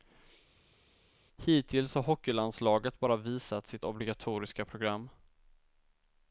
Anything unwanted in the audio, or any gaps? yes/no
no